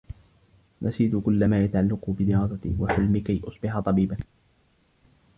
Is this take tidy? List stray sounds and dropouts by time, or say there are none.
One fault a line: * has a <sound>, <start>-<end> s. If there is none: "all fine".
all fine